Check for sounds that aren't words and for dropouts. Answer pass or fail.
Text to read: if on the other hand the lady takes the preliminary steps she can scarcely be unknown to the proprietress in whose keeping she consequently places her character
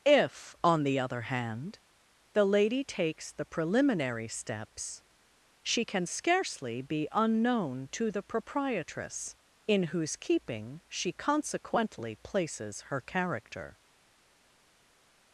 pass